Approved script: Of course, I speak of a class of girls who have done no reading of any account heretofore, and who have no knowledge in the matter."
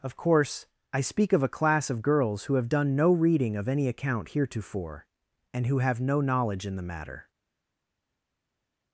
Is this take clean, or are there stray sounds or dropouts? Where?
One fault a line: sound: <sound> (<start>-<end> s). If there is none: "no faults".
no faults